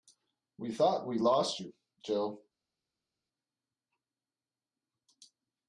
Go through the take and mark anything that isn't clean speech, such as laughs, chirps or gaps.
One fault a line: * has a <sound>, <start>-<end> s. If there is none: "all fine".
all fine